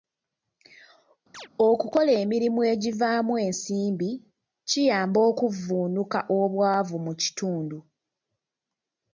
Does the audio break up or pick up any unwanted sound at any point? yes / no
yes